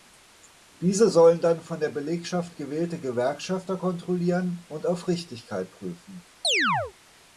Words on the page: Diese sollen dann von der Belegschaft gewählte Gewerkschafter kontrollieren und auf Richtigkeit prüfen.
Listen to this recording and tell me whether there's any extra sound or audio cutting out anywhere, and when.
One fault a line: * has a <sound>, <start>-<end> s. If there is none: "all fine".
* has a chirp, 6.4-6.9 s